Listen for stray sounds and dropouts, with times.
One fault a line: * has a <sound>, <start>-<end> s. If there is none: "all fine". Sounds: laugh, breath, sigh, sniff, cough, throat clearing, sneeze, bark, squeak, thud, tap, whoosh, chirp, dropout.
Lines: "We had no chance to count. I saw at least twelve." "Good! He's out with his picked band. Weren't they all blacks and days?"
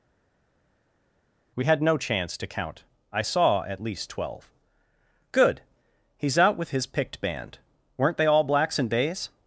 all fine